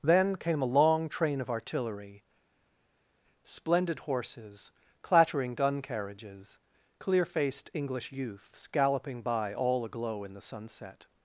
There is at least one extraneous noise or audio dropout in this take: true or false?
false